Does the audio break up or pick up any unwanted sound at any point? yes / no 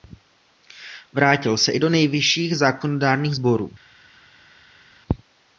no